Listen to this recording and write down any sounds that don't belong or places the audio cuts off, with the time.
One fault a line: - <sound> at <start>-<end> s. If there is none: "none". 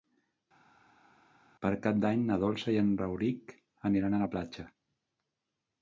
none